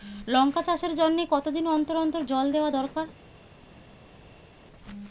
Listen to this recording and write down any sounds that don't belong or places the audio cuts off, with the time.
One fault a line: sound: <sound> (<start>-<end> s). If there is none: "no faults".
no faults